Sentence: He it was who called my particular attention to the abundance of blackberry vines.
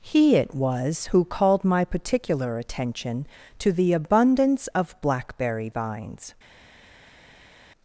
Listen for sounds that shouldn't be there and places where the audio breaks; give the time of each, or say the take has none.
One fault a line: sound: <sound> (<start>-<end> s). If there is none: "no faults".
no faults